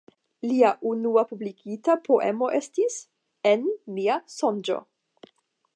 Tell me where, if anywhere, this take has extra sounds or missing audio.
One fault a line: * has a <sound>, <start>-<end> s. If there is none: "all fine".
all fine